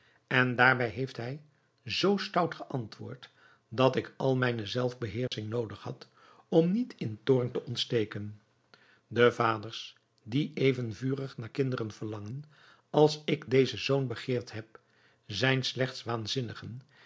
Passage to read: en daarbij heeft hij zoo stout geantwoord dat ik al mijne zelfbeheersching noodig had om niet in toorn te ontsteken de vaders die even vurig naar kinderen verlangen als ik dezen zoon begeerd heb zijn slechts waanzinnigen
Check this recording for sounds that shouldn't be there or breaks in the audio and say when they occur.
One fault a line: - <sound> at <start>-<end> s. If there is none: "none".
- dropout at 5.3-5.3 s